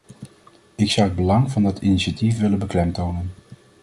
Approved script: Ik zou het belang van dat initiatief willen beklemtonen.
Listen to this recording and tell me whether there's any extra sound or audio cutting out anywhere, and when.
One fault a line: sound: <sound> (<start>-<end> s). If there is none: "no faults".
no faults